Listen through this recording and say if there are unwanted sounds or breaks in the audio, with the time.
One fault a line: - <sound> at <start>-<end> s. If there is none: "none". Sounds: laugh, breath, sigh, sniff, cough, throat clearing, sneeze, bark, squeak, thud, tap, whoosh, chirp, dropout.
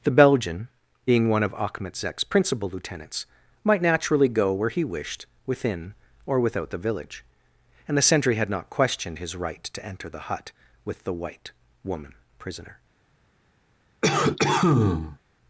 - cough at 14.0-15.2 s